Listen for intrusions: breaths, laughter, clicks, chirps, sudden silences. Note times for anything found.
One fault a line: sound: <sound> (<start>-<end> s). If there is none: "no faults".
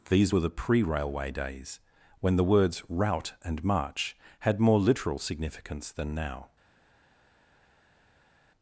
no faults